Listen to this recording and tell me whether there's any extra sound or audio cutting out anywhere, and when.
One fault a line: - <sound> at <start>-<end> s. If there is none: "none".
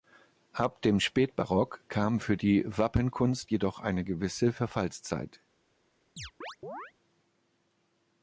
- chirp at 6.2-6.9 s